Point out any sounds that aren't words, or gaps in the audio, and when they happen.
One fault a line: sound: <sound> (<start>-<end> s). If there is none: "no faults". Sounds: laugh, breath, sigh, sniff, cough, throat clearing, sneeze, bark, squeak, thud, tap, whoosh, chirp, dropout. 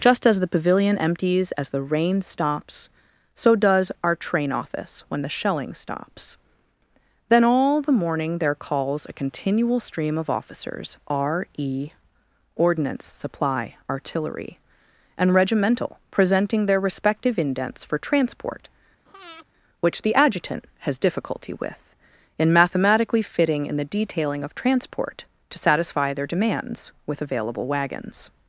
sound: breath (19.1-19.5 s)